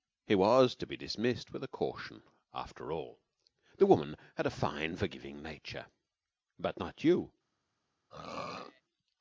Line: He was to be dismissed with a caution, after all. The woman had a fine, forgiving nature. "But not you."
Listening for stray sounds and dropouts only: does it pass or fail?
fail